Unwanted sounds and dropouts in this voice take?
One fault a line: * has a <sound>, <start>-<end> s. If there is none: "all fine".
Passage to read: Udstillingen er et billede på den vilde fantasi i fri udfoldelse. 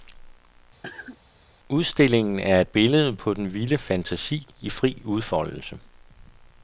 * has a cough, 0.8-1.2 s